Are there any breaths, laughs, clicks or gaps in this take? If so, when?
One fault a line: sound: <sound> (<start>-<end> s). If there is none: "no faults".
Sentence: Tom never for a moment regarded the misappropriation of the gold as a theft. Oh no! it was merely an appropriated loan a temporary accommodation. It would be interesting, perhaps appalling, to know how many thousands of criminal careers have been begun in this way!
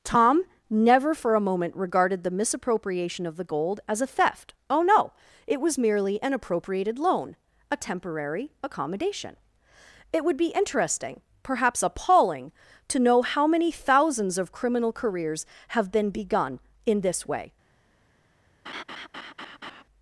sound: laugh (18.7-19.8 s)